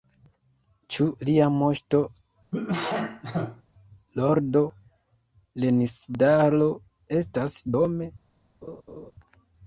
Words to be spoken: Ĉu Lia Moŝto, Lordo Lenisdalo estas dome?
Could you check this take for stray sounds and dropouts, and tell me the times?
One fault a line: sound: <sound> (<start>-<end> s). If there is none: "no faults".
sound: cough (2.5-3.6 s)
sound: laugh (8.6-9.1 s)